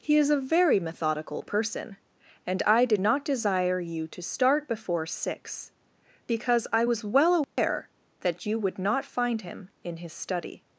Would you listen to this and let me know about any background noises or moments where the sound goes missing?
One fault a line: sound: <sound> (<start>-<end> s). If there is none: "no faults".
sound: dropout (7.4-7.6 s)